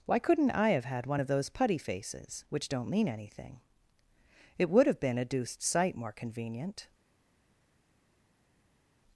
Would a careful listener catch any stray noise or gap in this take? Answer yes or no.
no